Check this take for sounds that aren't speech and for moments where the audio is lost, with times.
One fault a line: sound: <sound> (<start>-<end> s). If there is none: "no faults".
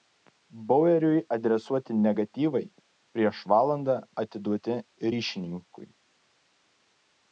no faults